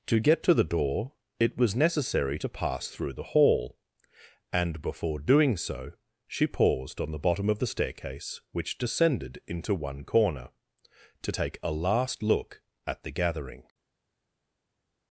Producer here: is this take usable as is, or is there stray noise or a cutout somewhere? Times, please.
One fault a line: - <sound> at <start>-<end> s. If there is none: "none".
none